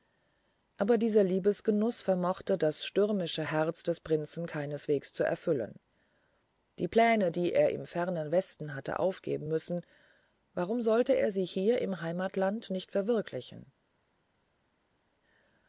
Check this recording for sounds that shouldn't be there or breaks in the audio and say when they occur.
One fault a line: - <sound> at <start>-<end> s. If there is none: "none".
none